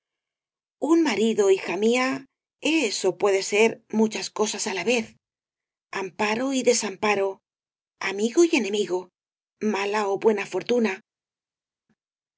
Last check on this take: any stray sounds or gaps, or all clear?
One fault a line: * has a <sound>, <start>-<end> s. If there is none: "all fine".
all fine